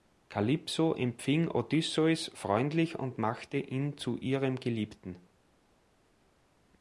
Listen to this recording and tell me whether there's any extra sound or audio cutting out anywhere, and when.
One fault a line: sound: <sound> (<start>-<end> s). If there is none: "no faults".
no faults